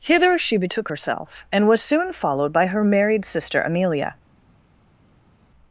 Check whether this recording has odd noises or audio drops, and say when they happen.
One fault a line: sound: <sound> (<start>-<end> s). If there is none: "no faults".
no faults